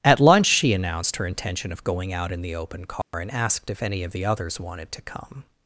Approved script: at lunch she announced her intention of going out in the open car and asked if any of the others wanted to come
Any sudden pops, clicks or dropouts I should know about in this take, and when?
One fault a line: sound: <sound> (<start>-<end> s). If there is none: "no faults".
sound: dropout (3.0-3.1 s)